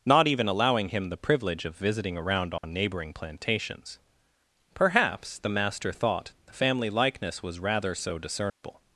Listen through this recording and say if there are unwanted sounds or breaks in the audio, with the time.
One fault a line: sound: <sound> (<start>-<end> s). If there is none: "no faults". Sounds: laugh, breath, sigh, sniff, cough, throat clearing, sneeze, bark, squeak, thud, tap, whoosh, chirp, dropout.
sound: dropout (2.6-2.6 s)
sound: dropout (8.5-8.6 s)